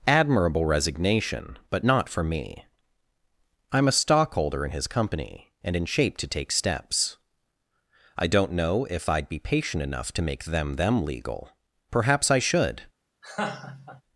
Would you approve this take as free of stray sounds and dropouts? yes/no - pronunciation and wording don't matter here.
no